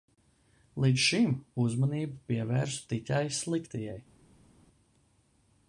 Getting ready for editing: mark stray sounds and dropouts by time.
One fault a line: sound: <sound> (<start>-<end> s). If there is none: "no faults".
no faults